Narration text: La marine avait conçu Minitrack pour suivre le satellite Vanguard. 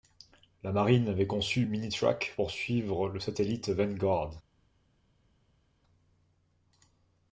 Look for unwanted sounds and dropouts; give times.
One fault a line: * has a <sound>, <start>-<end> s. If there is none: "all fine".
all fine